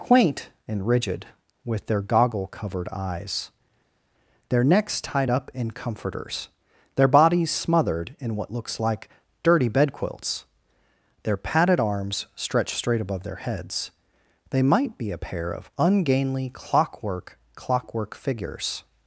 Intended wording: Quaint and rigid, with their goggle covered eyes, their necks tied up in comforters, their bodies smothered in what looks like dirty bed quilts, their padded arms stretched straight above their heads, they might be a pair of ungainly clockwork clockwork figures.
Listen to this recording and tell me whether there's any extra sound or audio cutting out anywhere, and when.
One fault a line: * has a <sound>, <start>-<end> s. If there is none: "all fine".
all fine